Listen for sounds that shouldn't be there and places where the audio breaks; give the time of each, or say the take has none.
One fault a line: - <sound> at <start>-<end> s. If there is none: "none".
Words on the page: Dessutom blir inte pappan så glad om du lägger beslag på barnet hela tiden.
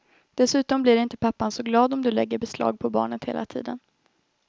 none